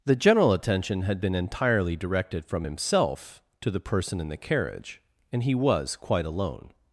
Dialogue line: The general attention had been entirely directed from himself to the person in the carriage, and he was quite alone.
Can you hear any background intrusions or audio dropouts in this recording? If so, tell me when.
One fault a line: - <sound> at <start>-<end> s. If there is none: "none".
none